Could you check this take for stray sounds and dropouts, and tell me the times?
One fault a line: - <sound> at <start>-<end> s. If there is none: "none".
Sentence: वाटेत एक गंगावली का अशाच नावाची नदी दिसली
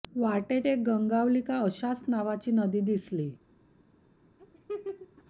- laugh at 4.4-5.2 s